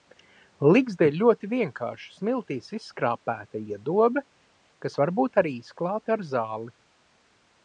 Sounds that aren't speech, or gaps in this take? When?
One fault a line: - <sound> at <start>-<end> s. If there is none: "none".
none